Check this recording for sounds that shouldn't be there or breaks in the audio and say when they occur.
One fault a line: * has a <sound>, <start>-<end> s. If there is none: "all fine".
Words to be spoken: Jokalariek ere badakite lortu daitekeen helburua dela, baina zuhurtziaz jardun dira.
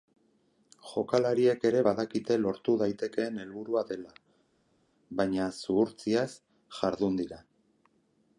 all fine